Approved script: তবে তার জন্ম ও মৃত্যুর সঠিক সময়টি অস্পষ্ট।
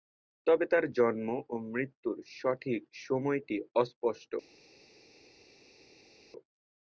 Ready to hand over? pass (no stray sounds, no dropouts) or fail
pass